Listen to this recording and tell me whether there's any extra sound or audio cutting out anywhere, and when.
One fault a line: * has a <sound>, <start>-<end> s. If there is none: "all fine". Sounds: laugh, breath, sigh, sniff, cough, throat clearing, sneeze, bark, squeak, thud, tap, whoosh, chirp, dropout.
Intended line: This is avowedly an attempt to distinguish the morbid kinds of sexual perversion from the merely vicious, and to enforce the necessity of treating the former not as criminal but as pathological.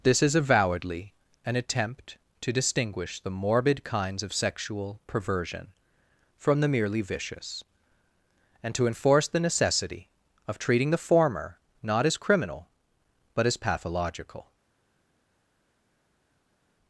all fine